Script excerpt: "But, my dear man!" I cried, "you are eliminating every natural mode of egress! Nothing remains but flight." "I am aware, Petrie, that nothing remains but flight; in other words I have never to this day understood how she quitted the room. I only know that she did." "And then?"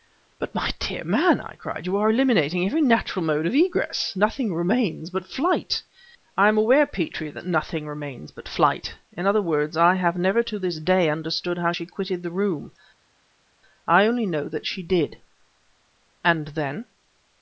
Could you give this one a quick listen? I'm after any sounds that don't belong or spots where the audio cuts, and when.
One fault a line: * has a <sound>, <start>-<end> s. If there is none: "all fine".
all fine